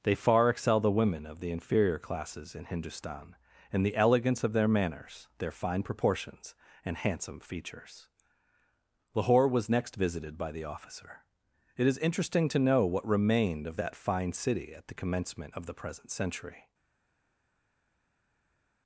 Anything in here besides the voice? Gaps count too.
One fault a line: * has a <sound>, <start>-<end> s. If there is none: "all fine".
all fine